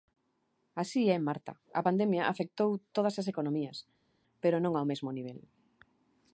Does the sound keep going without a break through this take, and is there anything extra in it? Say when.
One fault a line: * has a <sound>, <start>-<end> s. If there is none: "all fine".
all fine